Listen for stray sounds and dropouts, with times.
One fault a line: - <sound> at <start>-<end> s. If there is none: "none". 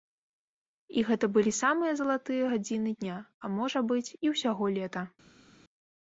none